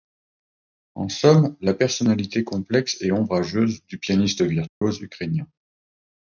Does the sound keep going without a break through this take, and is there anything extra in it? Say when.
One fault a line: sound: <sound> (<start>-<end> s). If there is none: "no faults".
sound: dropout (4.7-4.8 s)